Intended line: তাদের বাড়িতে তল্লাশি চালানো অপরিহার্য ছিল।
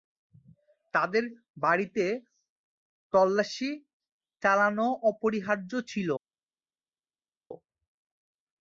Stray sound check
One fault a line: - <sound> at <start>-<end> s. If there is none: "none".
none